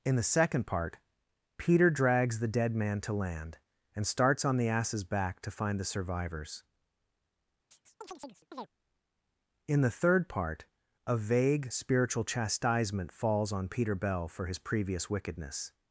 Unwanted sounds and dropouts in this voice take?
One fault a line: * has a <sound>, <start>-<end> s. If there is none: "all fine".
* has a chirp, 7.7-8.7 s